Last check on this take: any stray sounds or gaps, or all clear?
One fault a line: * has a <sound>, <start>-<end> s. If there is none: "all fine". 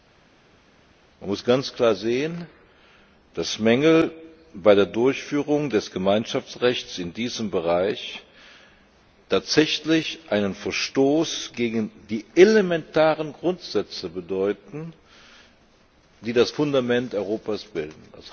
all fine